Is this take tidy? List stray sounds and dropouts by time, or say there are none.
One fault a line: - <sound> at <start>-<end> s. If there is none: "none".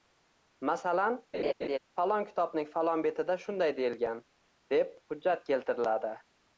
- laugh at 1.3-1.8 s